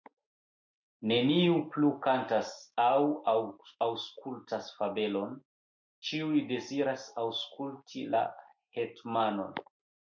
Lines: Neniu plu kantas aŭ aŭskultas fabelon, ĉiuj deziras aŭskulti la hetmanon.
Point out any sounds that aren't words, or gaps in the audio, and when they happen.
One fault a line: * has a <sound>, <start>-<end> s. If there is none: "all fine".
all fine